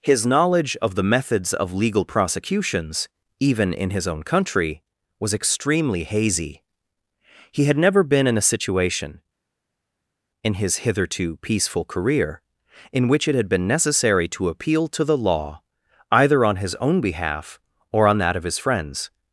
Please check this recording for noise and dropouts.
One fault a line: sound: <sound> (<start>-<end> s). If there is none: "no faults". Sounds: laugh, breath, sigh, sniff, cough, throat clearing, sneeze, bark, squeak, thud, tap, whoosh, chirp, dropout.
no faults